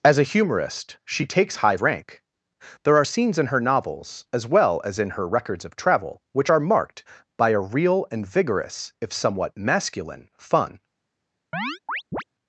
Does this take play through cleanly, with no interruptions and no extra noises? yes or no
no